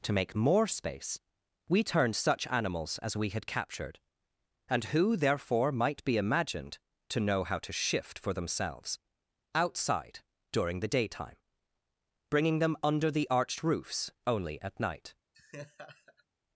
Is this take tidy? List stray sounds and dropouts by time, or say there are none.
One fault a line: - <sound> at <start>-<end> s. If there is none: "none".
- laugh at 15.3-16.2 s